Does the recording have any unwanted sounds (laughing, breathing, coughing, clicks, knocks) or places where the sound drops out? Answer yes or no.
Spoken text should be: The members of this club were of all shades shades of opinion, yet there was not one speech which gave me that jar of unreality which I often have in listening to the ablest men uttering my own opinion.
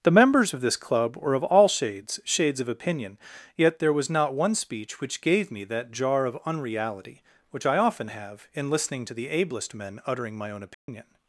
yes